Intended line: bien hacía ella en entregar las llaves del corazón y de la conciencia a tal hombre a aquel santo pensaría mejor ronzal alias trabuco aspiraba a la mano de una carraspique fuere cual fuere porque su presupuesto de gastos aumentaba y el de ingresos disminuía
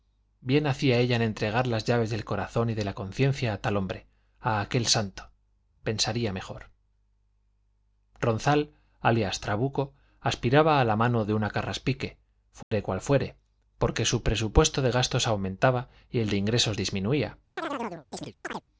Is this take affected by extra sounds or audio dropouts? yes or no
yes